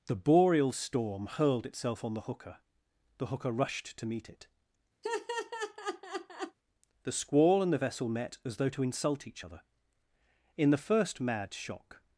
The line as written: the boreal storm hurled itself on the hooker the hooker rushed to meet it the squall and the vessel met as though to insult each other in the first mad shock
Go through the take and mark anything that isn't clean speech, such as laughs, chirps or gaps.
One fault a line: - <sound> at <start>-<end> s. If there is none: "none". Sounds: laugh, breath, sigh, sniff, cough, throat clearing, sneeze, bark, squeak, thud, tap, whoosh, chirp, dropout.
- laugh at 5.0-6.6 s